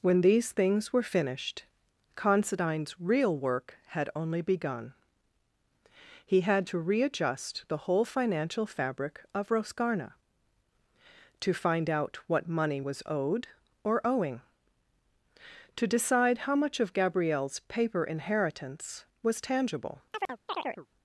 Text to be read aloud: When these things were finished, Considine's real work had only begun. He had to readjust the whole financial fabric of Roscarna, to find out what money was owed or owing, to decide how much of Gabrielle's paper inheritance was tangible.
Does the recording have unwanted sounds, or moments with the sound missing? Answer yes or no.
yes